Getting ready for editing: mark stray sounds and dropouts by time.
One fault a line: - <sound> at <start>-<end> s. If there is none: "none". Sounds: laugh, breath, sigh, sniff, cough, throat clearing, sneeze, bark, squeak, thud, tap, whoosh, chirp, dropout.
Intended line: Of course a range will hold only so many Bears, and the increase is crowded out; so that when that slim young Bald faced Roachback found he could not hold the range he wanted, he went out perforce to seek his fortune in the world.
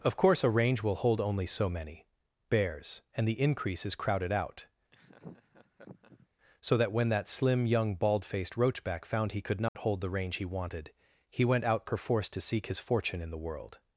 - laugh at 4.9-6.3 s
- dropout at 9.7-9.8 s